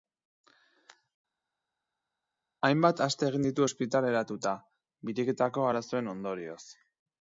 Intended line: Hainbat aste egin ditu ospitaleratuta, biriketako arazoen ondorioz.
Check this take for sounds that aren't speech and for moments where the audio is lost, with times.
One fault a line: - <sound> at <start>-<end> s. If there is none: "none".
none